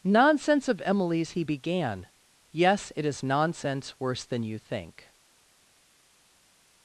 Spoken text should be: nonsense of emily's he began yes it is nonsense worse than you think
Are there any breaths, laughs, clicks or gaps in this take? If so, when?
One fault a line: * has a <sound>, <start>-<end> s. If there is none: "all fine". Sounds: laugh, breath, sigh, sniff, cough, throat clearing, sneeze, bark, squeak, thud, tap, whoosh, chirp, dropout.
all fine